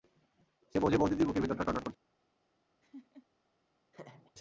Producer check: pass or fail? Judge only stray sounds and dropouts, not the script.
fail